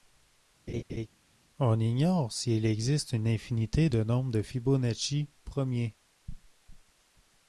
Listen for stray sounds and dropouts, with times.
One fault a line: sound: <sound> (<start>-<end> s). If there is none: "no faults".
sound: laugh (0.7-1.1 s)